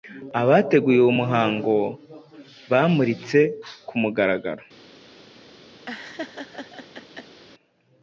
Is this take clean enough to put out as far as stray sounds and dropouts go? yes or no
no